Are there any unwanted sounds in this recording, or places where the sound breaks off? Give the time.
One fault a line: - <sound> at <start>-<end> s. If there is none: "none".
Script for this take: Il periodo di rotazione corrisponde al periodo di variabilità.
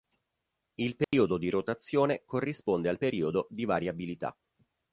- dropout at 1.0-1.1 s